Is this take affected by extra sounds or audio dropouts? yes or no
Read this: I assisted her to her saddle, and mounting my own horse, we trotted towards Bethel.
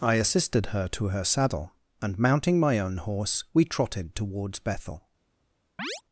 yes